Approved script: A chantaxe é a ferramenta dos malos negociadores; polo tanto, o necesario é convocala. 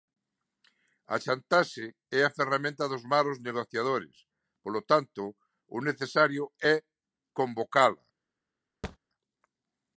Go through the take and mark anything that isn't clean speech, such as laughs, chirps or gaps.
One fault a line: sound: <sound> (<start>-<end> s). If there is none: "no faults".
sound: thud (8.8-9.0 s)